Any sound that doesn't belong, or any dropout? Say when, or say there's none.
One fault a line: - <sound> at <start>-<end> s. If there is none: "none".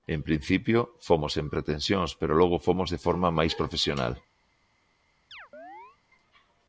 - chirp at 5.3-6.0 s